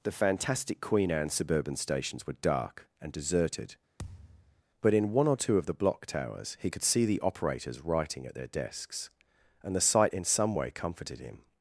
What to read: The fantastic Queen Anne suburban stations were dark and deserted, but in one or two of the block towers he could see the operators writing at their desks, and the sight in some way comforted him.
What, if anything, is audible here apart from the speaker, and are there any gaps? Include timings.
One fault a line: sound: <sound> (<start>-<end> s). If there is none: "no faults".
sound: thud (4.0-4.6 s)